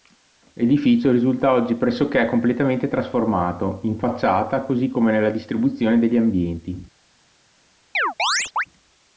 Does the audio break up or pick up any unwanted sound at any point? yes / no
yes